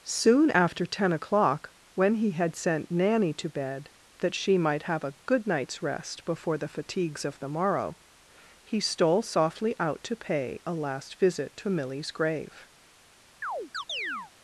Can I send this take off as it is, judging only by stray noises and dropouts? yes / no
no